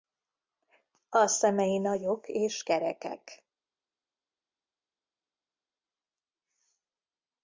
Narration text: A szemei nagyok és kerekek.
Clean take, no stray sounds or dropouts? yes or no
yes